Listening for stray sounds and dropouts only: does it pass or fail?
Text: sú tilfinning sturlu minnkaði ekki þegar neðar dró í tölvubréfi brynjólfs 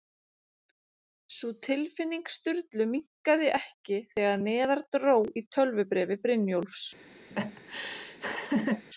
fail